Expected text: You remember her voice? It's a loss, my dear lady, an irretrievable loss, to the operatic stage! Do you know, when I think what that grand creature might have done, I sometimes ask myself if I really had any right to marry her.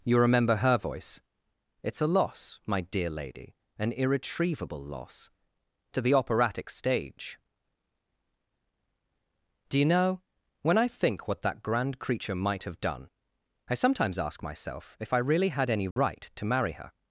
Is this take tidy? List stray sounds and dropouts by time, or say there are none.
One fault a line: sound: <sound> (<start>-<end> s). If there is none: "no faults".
sound: dropout (15.9-16.0 s)